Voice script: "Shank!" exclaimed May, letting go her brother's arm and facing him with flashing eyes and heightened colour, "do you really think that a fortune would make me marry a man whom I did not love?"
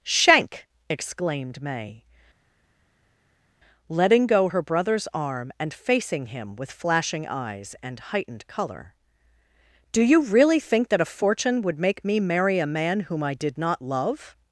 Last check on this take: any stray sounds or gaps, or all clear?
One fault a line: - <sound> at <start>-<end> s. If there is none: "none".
none